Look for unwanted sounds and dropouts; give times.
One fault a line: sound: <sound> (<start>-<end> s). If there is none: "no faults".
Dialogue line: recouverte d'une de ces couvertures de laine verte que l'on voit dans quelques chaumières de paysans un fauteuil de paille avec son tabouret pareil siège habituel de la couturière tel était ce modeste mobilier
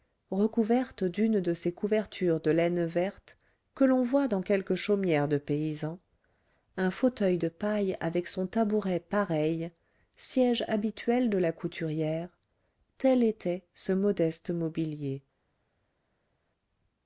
no faults